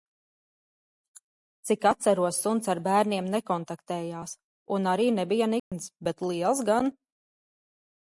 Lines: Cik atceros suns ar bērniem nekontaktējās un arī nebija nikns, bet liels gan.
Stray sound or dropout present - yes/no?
yes